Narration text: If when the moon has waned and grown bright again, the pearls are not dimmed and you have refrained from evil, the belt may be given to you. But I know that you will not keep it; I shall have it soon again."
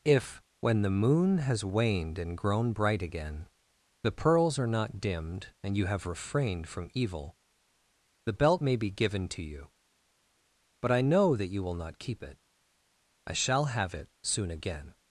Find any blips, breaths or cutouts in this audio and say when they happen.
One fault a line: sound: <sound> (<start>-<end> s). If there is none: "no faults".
no faults